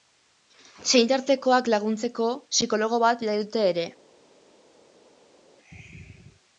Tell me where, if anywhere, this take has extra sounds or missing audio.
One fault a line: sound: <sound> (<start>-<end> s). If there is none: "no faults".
no faults